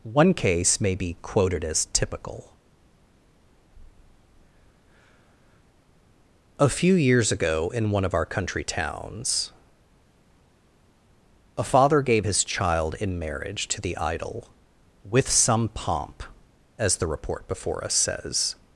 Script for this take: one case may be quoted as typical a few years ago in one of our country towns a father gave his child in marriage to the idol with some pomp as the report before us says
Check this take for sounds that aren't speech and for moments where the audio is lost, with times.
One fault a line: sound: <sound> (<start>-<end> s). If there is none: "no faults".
no faults